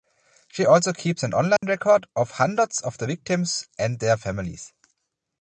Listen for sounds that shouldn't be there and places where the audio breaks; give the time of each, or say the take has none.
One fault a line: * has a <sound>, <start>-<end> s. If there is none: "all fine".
* has a dropout, 1.6-1.6 s